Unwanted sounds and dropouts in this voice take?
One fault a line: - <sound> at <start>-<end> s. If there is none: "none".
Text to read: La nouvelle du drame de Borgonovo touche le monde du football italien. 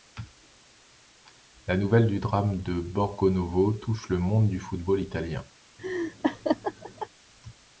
- laugh at 5.8-7.1 s